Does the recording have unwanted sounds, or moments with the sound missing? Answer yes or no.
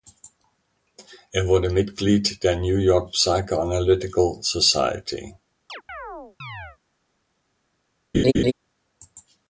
yes